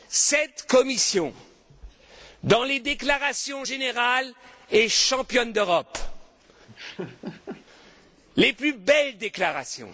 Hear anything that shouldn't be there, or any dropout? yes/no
yes